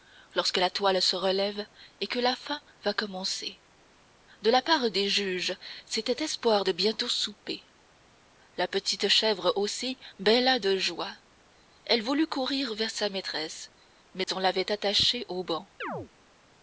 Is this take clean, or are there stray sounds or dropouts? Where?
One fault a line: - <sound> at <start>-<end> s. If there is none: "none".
- dropout at 14.2-14.3 s
- chirp at 15.8-16.1 s